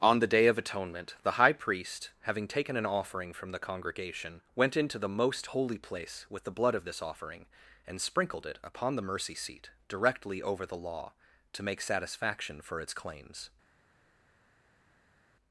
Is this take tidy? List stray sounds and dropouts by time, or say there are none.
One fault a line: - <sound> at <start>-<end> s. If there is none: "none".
none